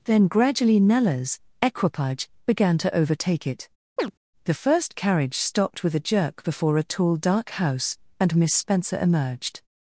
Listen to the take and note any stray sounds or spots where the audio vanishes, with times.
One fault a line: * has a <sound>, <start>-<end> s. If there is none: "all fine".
* has a chirp, 4.0-4.1 s